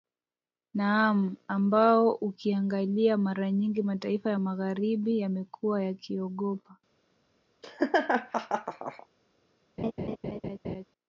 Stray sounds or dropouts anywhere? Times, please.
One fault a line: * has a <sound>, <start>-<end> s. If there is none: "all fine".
* has a laugh, 7.6-9.1 s
* has a laugh, 9.8-10.8 s